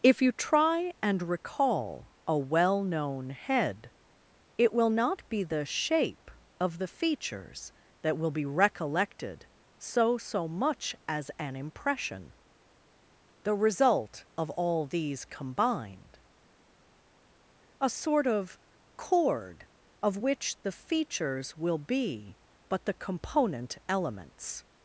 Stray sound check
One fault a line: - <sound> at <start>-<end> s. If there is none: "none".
none